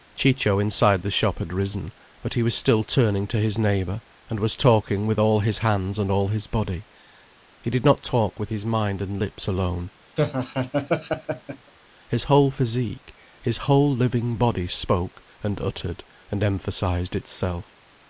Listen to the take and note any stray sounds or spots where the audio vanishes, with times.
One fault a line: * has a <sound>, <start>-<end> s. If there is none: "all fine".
* has a laugh, 10.2-11.7 s